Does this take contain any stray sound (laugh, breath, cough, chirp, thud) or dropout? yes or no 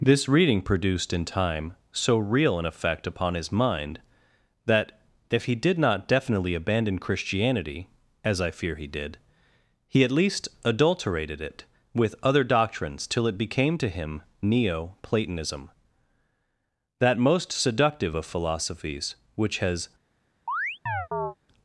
yes